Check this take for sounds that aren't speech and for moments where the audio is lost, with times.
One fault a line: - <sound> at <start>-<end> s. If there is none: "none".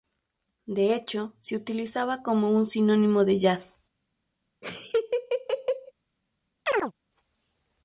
- laugh at 4.6-5.9 s
- chirp at 6.7-6.9 s